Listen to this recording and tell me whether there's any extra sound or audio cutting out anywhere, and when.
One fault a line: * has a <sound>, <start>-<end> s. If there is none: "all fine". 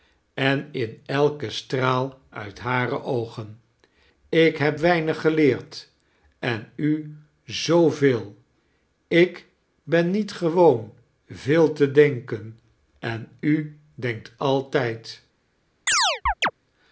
* has a chirp, 15.9-16.5 s